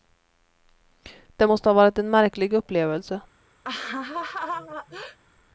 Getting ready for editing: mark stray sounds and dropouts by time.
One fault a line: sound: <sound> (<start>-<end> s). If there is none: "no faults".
sound: laugh (3.6-5.2 s)